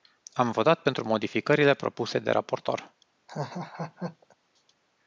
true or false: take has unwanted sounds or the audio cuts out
true